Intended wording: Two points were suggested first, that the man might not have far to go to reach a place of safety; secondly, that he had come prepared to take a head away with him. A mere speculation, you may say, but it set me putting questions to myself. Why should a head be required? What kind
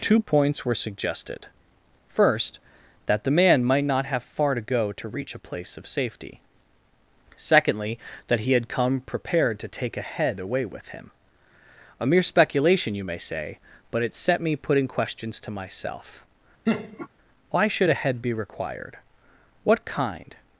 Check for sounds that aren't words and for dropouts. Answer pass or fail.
fail